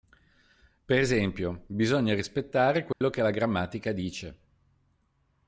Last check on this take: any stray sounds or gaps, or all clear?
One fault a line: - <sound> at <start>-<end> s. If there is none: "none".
- dropout at 2.9-3.0 s